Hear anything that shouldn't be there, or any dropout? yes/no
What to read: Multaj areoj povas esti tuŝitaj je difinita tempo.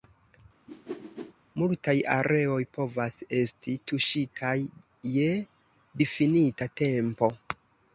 yes